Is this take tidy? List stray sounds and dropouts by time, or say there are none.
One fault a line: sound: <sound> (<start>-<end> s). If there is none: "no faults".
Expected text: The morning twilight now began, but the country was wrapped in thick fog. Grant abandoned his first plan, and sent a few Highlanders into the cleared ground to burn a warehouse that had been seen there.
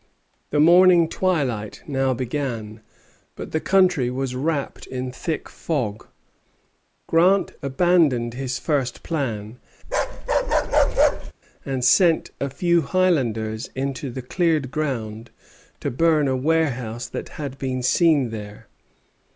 sound: bark (9.8-11.3 s)